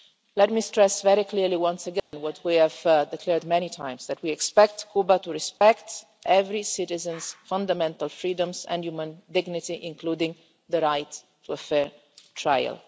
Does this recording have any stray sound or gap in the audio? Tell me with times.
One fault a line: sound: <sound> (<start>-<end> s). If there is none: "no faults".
sound: dropout (2.0-2.1 s)
sound: dropout (5.6-5.6 s)